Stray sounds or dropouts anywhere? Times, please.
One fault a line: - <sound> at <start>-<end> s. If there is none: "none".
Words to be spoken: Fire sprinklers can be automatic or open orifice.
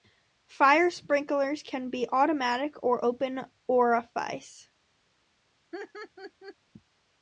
- laugh at 5.7-6.6 s